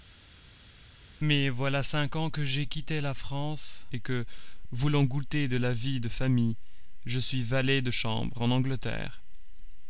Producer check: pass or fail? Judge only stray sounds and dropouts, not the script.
pass